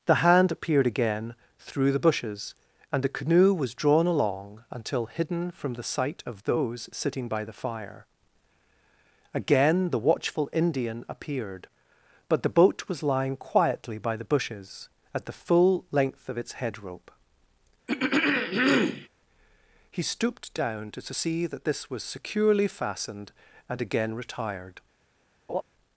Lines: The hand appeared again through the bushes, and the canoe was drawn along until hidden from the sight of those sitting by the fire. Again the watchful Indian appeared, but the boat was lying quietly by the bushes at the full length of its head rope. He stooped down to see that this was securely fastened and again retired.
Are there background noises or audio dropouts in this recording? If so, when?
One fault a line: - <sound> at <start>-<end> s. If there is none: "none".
- throat clearing at 17.9-19.1 s
- laugh at 25.5-25.6 s